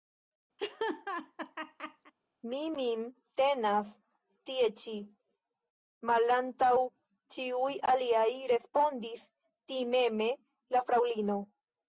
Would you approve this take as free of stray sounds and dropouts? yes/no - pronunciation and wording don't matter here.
no